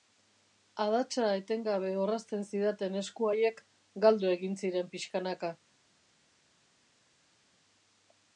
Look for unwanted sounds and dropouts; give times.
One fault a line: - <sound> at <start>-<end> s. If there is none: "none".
none